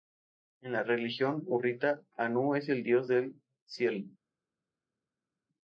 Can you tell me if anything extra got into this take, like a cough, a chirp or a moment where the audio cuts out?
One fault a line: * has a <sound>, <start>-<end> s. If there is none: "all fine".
all fine